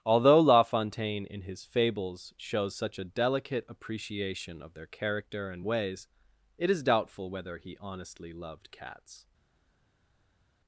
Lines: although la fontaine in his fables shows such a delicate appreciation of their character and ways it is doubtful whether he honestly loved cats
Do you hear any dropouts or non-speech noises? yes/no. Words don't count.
no